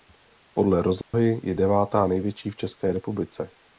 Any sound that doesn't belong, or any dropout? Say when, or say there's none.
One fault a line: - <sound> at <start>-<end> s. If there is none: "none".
- dropout at 1.0-1.1 s